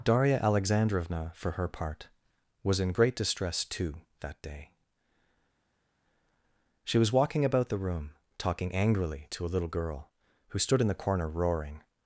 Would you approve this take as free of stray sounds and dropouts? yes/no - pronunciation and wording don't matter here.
yes